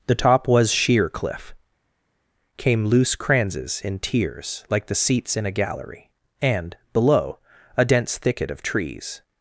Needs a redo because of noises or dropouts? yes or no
no